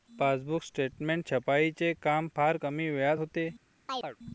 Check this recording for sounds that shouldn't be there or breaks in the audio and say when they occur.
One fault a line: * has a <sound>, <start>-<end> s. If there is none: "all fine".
* has a chirp, 3.9-4.2 s